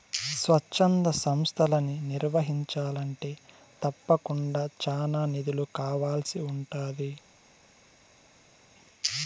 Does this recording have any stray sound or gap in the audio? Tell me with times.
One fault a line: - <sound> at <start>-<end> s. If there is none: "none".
none